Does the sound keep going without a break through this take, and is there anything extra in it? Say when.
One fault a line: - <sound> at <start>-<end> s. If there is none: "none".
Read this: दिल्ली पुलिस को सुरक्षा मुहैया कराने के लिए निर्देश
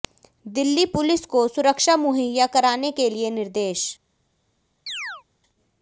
- chirp at 4.9-5.2 s